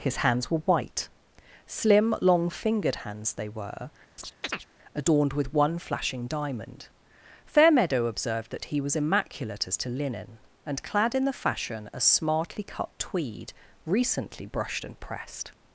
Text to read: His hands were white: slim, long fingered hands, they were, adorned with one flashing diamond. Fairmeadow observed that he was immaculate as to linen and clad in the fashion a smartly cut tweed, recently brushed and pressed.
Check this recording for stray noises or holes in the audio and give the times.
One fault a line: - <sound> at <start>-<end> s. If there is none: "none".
- chirp at 4.2-4.7 s